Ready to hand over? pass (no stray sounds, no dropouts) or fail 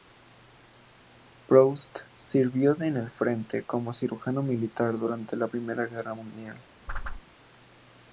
fail